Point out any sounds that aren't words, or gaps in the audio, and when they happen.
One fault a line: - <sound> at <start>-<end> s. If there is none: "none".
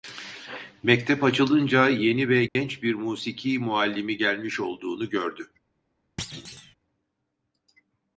- dropout at 2.5-2.6 s
- thud at 6.2-6.8 s